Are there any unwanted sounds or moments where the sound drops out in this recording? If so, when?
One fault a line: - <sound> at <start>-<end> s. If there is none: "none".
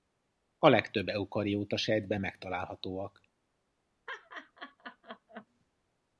- laugh at 4.1-5.5 s